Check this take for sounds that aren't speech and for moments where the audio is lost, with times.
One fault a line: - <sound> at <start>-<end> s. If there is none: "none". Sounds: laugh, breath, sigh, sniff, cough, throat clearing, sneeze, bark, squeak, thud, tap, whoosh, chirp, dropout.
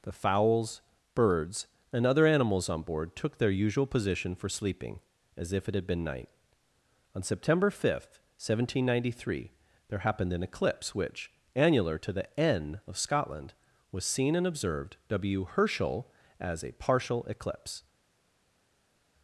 none